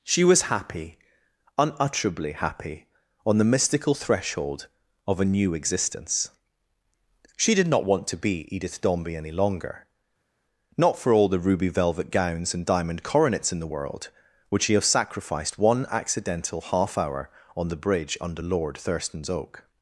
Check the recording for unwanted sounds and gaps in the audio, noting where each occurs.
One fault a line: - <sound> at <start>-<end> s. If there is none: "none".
none